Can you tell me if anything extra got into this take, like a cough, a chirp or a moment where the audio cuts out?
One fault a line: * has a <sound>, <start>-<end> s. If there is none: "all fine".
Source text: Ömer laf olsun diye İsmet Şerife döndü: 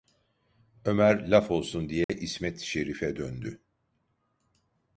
* has a dropout, 2.0-2.1 s